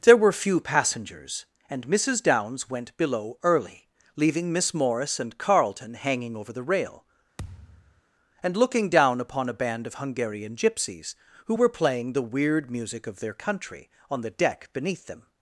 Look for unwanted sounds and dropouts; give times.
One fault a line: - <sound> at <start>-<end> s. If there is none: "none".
- thud at 7.4-8.0 s